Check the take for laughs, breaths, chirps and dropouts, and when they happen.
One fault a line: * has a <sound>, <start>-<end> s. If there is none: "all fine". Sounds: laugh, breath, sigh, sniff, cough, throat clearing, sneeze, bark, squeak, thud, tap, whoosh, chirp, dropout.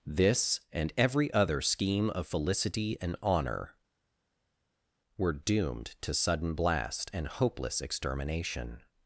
all fine